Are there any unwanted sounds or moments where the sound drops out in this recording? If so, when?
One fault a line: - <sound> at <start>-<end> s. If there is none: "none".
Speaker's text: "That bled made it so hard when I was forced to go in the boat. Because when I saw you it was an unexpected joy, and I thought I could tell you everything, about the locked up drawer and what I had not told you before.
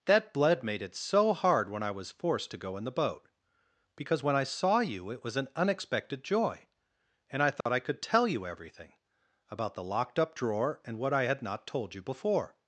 - dropout at 7.6-7.7 s